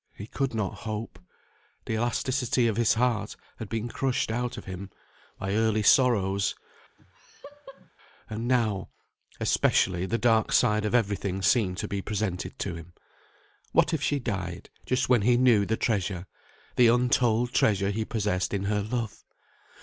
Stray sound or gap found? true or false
true